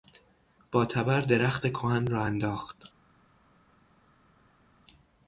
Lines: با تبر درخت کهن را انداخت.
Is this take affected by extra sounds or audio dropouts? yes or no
no